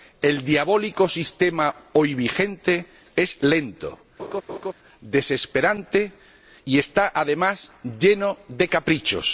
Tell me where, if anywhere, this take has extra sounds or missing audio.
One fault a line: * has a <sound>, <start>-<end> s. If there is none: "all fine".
* has a laugh, 4.2-4.7 s